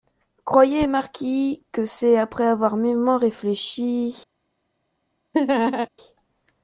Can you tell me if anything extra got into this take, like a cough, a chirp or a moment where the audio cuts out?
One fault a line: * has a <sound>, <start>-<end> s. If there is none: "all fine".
* has a laugh, 5.3-5.9 s